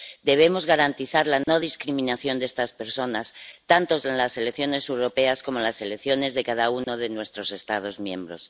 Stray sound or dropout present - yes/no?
yes